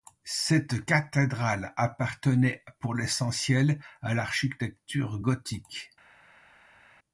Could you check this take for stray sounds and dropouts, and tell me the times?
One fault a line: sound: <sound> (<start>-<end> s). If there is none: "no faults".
no faults